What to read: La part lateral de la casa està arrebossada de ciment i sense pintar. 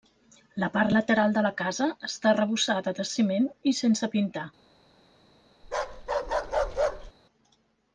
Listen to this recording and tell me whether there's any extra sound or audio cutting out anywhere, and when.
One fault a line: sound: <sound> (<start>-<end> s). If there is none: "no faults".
sound: bark (5.6-7.1 s)